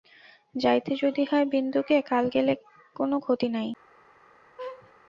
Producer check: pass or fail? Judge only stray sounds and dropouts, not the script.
fail